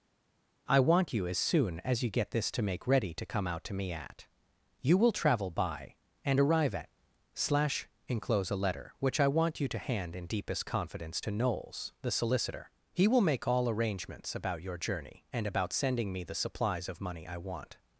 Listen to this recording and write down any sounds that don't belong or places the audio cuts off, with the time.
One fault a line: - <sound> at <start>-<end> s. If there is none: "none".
none